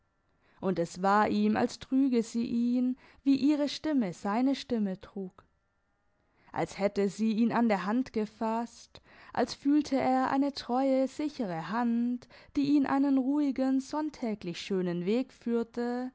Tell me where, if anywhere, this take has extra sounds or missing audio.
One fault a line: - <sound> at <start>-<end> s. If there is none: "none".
none